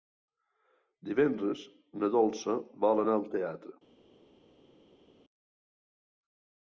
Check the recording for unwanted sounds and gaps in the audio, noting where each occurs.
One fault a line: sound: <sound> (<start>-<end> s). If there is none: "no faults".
no faults